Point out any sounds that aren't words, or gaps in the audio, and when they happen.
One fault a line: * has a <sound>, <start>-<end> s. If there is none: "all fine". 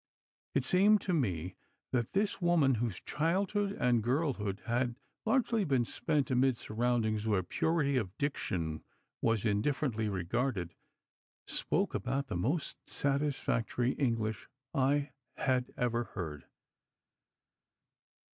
all fine